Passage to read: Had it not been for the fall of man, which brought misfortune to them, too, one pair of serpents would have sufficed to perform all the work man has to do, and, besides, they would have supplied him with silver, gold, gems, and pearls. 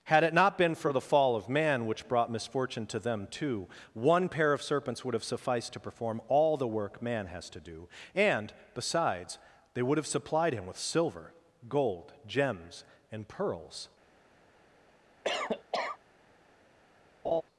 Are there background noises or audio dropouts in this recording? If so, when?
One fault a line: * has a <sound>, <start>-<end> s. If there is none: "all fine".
* has a cough, 15.2-16.0 s
* has a laugh, 17.2-17.4 s